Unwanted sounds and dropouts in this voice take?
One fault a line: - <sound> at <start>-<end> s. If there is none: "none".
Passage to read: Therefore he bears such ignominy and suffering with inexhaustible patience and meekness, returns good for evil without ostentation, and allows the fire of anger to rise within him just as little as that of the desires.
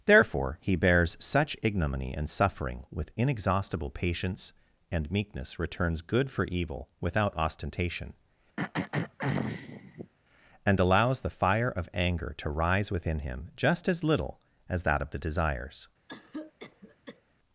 - throat clearing at 8.6-10.1 s
- cough at 16.1-17.2 s